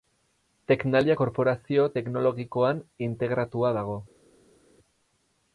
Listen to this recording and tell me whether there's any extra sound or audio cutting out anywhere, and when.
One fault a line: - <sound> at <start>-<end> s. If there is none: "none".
none